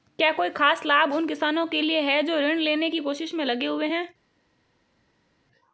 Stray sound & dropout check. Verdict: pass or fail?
pass